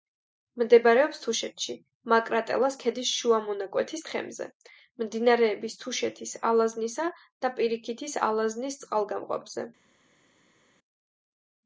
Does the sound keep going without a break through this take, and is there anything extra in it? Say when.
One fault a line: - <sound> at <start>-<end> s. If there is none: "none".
none